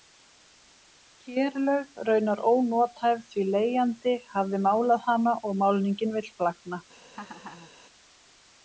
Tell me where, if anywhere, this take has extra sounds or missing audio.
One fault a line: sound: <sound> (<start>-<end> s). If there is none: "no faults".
sound: laugh (7.1-7.7 s)